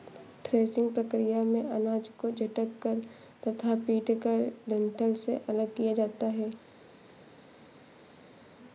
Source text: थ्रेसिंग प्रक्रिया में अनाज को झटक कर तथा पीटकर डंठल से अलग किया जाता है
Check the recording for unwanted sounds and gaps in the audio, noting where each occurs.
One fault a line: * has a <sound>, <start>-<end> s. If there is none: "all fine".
all fine